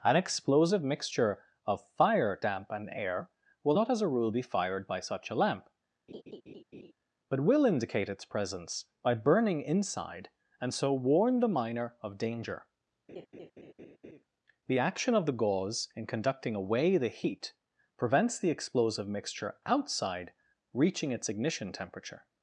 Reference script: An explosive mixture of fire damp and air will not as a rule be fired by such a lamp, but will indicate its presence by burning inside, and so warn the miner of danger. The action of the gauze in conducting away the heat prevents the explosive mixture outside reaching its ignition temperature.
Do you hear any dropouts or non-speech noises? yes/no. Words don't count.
yes